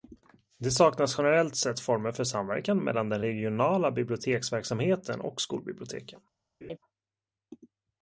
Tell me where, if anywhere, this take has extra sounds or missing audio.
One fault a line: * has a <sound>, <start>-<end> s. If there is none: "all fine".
* has a laugh, 6.6-6.8 s